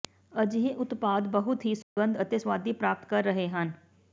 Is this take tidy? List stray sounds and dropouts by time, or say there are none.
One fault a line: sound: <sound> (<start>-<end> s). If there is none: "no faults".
sound: dropout (1.8-2.0 s)